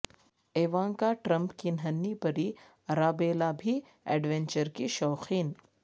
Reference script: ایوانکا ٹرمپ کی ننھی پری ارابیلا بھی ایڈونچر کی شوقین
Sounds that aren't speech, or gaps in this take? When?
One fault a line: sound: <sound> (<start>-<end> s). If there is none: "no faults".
no faults